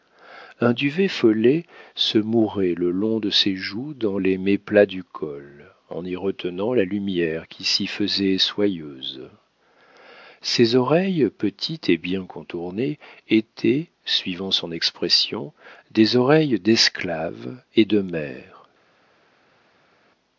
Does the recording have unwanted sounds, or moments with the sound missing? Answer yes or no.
no